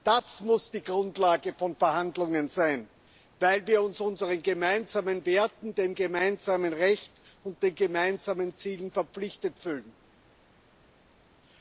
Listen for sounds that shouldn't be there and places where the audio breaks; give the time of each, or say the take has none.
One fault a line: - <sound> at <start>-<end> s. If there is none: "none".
none